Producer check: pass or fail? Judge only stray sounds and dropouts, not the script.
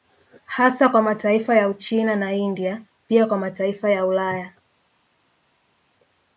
pass